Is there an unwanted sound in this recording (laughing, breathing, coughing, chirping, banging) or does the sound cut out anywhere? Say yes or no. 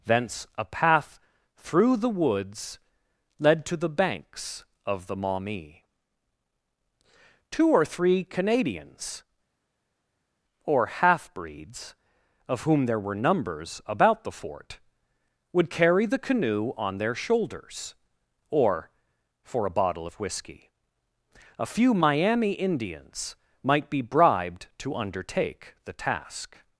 no